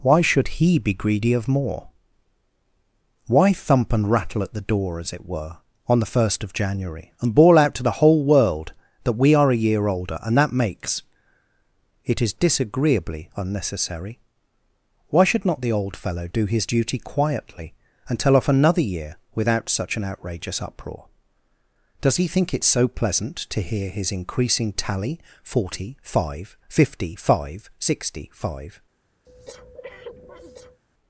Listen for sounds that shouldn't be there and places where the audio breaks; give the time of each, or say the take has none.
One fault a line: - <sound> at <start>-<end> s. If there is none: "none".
- breath at 29.2-30.8 s